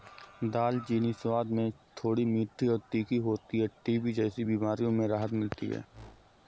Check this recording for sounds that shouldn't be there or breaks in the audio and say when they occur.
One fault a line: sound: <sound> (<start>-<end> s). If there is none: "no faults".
sound: whoosh (5.9-6.4 s)